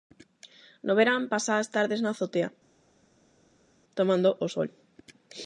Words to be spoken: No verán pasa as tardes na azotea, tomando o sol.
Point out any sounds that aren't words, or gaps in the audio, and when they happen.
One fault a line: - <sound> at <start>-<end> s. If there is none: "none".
none